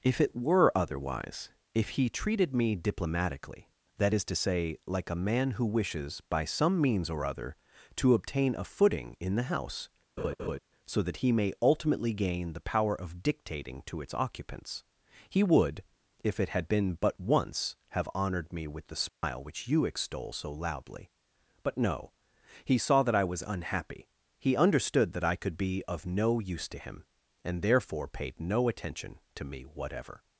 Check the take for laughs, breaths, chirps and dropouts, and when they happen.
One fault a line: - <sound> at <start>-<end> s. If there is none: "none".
- laugh at 10.2-10.6 s
- dropout at 19.1-19.2 s